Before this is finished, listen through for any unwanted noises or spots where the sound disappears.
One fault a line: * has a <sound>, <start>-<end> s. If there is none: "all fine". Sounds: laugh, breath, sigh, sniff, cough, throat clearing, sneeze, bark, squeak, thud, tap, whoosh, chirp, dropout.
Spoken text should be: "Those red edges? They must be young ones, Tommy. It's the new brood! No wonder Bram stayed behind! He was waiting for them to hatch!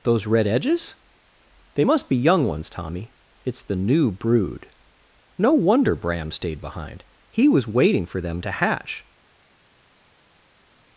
all fine